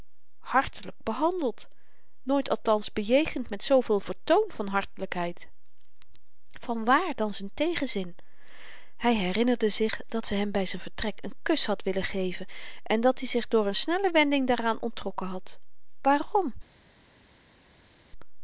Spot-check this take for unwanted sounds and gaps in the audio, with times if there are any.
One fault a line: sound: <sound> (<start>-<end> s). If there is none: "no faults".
no faults